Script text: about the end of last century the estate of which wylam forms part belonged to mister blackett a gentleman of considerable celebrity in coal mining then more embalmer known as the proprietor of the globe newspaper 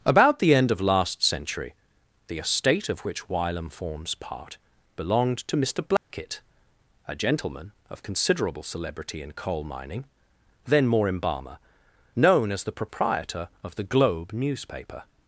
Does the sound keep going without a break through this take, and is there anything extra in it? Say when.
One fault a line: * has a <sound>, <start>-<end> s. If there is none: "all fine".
* has a dropout, 6.0-6.1 s